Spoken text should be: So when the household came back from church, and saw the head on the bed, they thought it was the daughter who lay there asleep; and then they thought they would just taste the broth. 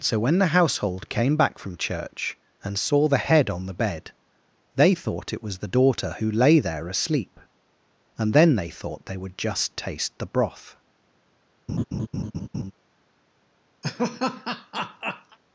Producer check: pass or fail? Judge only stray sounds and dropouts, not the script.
fail